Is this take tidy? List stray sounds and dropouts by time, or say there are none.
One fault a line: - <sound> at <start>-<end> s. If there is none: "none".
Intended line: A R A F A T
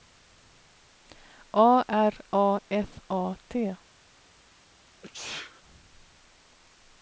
- sneeze at 5.0-5.6 s